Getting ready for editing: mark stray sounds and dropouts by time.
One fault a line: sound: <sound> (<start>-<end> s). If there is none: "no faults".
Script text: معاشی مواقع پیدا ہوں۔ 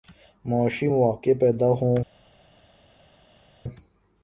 no faults